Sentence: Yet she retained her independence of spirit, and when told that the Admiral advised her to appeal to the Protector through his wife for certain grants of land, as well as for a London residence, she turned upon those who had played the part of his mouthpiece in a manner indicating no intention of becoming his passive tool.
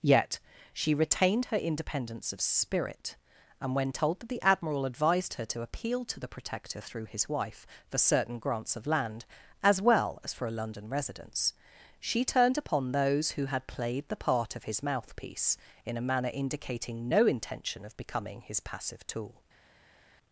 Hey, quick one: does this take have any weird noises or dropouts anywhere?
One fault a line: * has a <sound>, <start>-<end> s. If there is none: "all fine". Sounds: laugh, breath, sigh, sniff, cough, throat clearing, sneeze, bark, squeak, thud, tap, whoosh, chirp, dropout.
all fine